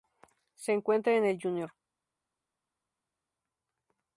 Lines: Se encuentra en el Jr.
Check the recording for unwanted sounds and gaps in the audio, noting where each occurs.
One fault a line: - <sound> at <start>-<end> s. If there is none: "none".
none